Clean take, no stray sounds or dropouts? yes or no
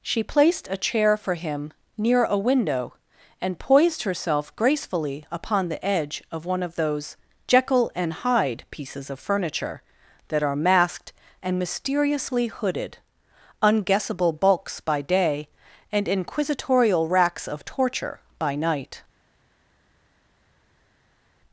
yes